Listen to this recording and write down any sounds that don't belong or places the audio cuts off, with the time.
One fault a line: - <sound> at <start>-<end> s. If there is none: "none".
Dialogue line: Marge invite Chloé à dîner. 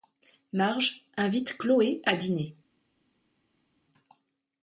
none